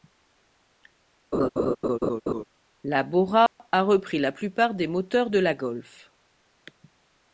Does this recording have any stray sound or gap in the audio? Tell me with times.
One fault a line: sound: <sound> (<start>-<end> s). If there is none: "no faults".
sound: laugh (1.3-2.4 s)
sound: dropout (3.5-3.6 s)